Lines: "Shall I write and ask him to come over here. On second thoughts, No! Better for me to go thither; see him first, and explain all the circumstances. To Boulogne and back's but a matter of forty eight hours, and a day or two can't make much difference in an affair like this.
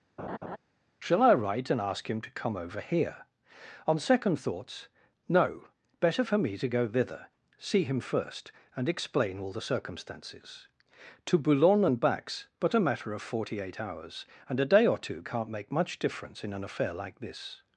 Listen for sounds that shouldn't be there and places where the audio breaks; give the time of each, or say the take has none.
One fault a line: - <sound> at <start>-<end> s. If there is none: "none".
- laugh at 0.2-0.6 s